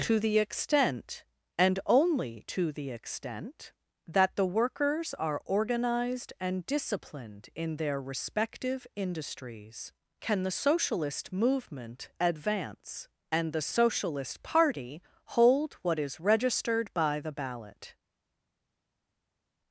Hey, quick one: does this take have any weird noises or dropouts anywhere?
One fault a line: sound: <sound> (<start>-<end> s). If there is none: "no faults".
no faults